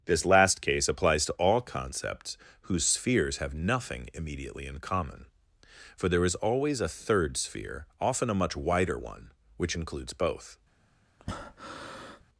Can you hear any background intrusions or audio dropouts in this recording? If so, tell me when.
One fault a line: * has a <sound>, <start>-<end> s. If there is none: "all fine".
* has a breath, 11.2-12.2 s